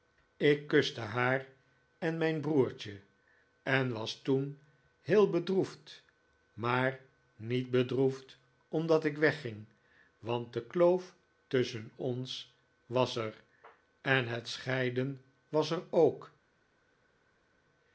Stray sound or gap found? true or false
false